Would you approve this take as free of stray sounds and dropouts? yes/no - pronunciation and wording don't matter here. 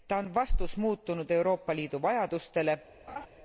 no